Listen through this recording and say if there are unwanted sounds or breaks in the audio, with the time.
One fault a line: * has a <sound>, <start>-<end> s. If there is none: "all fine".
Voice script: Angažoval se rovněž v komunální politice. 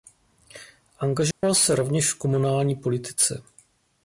* has a dropout, 1.3-1.4 s